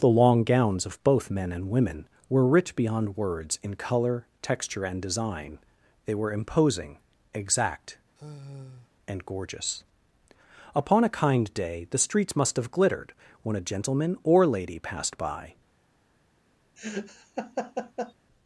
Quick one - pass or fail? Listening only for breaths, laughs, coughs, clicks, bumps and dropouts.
fail